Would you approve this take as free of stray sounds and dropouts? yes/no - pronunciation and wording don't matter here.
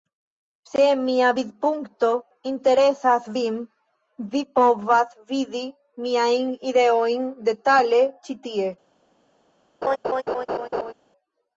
no